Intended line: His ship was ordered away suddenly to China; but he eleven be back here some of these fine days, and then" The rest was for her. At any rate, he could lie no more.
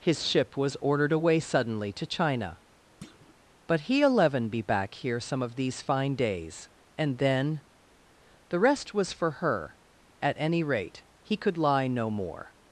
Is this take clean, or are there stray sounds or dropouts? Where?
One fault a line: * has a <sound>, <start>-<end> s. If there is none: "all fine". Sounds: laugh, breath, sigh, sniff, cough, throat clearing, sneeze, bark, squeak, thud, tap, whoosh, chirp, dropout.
* has a thud, 3.0-3.4 s